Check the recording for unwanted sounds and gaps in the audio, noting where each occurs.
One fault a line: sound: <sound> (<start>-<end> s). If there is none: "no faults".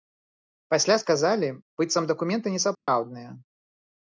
sound: dropout (2.7-2.9 s)